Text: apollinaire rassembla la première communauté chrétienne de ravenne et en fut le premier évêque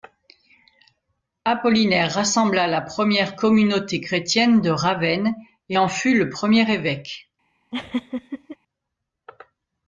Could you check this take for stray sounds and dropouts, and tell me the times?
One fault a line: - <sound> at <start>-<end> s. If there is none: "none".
- laugh at 7.7-8.6 s